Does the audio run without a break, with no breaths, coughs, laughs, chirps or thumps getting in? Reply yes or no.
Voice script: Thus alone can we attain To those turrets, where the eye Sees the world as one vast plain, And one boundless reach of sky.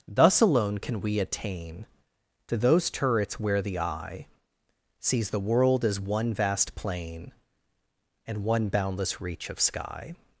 yes